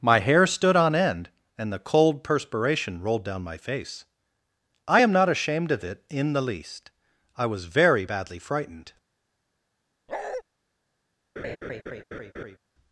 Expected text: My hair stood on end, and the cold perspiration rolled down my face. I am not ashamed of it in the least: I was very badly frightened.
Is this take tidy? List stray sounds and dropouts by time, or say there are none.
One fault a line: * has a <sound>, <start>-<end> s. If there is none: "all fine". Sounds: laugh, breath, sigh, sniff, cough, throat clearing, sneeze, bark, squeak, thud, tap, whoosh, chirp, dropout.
* has a bark, 10.1-10.4 s
* has a laugh, 11.4-12.6 s